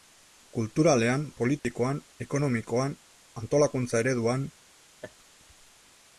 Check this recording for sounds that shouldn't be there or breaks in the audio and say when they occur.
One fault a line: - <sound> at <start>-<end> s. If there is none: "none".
- dropout at 1.6-1.6 s
- laugh at 5.0-5.1 s